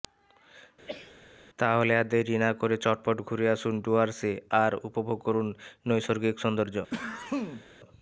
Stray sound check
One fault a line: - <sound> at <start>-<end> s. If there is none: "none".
- cough at 0.9-1.2 s
- sneeze at 6.9-7.7 s